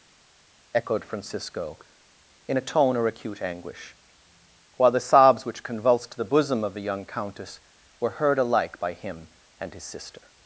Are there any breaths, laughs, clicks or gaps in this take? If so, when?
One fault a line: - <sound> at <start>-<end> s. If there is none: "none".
none